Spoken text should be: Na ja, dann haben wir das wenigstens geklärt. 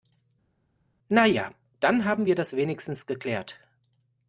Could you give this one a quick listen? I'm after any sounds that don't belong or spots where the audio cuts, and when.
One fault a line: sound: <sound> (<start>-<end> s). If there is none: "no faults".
no faults